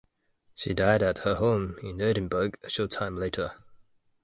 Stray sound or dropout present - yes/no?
no